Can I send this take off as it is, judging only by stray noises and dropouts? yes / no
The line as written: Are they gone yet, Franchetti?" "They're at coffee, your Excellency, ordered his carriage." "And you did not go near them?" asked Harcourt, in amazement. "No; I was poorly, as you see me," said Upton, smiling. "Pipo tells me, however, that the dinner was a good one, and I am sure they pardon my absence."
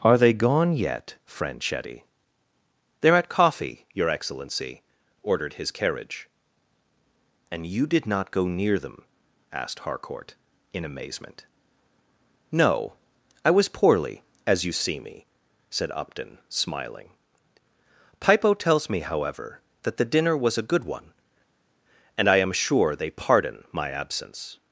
yes